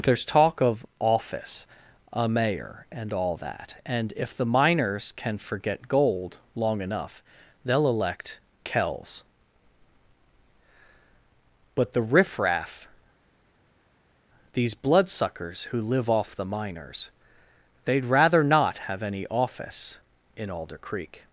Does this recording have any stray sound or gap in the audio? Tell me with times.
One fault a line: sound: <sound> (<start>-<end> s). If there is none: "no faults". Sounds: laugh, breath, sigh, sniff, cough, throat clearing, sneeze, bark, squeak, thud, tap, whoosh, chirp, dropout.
no faults